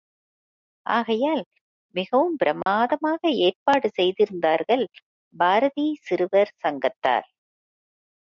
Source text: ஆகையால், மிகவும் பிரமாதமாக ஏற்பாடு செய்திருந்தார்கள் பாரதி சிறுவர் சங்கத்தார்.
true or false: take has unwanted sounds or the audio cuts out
true